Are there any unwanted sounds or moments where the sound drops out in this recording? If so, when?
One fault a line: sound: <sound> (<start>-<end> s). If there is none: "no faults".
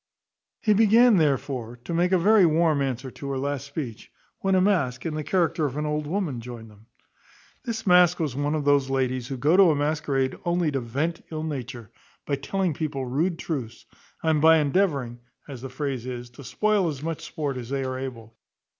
no faults